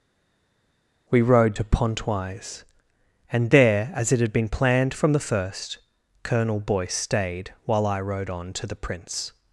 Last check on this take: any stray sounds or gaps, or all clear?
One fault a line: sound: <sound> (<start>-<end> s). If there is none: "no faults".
no faults